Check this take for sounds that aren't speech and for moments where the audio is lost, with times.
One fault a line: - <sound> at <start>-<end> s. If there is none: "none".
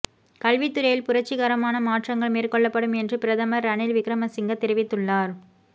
none